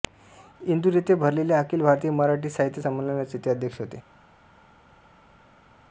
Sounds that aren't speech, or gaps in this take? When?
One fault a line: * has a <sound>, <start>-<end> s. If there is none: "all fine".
all fine